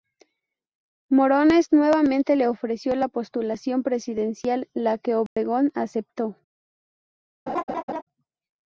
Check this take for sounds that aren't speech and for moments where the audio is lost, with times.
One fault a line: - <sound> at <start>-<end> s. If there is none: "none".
- dropout at 5.3-5.4 s
- laugh at 7.5-8.0 s